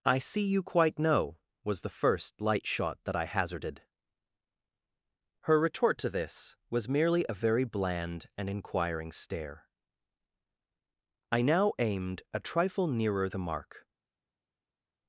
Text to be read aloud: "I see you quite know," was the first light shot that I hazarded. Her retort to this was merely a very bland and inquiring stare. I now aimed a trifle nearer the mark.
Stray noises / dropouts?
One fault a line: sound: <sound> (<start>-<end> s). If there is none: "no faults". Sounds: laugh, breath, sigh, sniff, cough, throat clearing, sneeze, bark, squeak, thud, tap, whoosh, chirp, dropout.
no faults